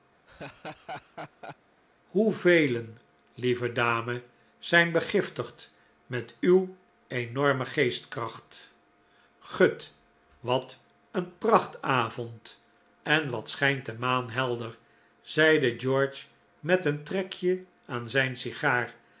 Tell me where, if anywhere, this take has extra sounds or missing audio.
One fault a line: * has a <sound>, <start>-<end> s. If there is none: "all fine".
* has a laugh, 0.3-1.6 s